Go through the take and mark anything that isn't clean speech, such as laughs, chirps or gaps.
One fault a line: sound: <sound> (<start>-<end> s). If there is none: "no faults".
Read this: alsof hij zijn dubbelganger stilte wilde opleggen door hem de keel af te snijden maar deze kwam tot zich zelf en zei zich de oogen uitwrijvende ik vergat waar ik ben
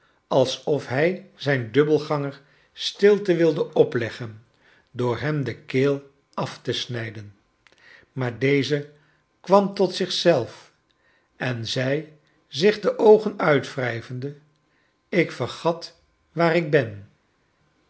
no faults